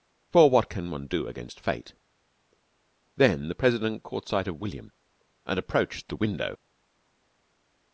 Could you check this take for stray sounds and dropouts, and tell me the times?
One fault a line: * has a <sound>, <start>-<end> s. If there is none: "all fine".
all fine